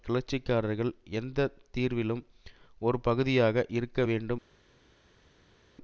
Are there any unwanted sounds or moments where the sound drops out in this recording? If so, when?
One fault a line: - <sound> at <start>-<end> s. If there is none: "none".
none